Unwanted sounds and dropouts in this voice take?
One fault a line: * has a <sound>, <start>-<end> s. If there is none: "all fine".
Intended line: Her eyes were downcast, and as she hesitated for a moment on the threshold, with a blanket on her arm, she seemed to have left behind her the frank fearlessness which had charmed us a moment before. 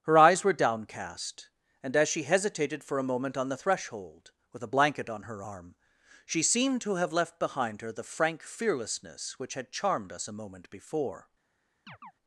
* has a chirp, 11.9-12.1 s